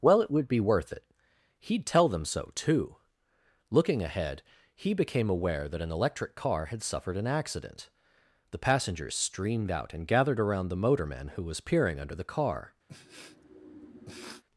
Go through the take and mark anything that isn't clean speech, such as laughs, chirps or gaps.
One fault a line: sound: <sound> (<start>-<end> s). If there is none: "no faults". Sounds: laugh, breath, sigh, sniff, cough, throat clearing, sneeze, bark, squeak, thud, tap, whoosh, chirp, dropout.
sound: sniff (12.9-14.4 s)